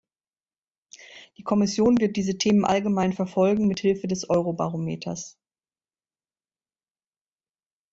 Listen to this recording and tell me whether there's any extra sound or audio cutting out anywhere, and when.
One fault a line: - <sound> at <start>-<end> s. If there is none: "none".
none